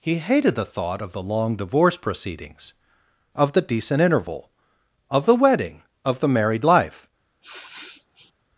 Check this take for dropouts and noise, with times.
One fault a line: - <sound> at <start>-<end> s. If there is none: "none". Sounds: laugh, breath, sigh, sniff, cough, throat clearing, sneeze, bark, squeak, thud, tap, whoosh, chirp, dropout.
- sniff at 7.4-8.3 s